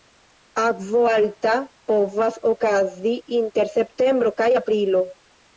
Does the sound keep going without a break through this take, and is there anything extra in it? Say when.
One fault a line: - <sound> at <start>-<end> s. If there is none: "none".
none